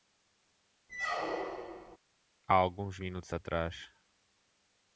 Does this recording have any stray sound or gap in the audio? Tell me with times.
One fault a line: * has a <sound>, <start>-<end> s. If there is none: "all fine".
* has a squeak, 0.9-2.0 s